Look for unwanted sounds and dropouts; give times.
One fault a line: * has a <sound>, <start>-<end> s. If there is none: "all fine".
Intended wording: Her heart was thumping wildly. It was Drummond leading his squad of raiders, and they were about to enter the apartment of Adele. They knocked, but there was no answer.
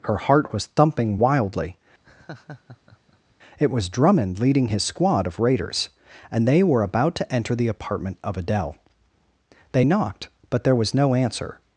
* has a laugh, 2.0-3.4 s